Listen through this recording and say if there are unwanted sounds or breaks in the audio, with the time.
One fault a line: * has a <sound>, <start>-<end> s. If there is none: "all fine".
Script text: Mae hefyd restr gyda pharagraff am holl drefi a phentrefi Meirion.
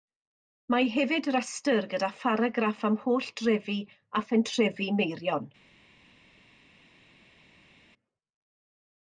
all fine